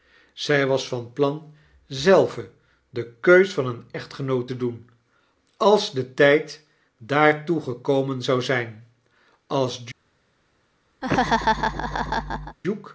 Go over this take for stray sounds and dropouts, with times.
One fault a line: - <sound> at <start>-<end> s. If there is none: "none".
- laugh at 11.0-12.6 s